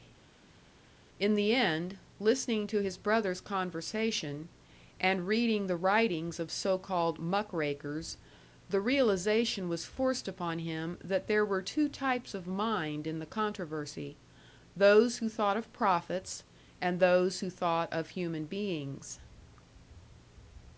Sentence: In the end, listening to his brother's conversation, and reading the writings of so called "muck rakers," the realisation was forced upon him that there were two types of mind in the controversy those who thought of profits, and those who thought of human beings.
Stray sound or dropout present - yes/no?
no